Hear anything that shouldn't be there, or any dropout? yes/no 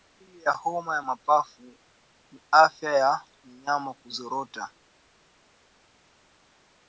no